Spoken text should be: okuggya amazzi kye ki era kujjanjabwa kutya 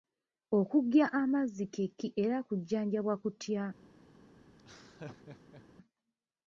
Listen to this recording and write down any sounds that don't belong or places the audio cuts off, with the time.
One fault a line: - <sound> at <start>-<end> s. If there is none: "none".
- laugh at 4.6-5.6 s